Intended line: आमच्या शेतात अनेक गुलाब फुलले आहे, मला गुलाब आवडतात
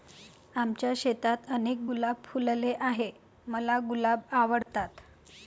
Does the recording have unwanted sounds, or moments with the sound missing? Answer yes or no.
yes